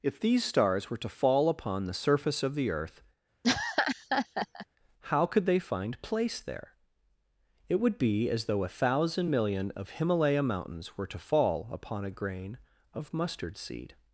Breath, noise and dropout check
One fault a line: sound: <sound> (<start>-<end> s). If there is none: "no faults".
sound: laugh (3.4-4.7 s)